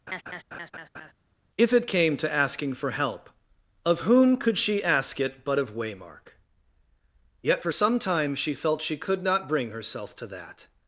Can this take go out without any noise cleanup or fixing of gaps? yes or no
no